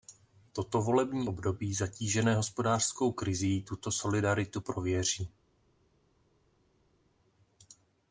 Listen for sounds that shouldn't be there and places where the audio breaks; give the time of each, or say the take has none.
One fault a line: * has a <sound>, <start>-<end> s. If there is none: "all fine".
all fine